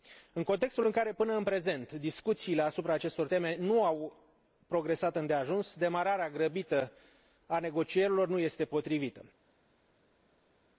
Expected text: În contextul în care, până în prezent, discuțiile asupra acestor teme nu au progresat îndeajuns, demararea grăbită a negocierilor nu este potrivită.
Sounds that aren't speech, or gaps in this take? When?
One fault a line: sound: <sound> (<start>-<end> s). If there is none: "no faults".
no faults